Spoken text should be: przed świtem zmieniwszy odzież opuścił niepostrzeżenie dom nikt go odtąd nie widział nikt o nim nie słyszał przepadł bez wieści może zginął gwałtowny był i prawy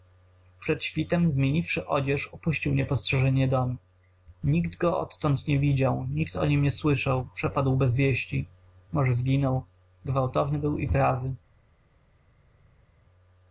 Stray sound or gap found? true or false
false